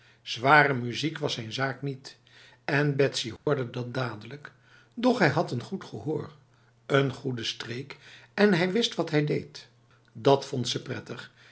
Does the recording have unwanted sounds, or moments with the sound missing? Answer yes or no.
yes